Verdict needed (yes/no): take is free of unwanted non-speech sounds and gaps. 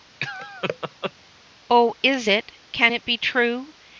no